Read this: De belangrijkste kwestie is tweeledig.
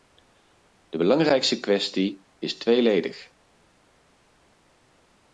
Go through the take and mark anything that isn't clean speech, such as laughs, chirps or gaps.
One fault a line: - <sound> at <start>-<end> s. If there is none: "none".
none